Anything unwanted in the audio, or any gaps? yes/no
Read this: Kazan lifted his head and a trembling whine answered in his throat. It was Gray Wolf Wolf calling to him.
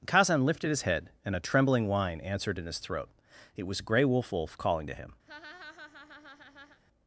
yes